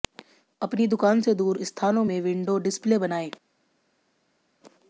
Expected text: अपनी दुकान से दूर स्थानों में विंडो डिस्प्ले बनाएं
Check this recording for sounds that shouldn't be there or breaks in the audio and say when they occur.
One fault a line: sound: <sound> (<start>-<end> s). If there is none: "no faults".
no faults